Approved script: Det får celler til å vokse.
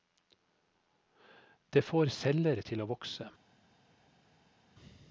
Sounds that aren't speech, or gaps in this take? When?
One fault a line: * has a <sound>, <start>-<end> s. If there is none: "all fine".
all fine